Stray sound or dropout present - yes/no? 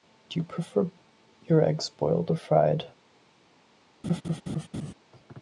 yes